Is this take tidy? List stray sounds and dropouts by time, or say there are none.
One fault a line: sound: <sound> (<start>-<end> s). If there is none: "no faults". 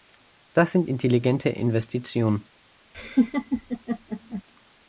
sound: laugh (2.9-4.4 s)